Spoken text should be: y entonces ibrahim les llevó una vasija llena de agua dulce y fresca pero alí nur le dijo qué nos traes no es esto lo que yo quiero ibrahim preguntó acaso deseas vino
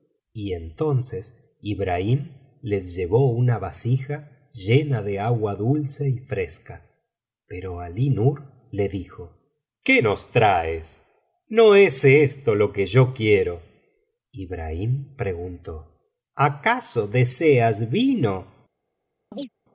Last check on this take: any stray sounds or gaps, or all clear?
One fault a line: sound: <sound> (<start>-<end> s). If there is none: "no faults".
sound: chirp (19.3-19.5 s)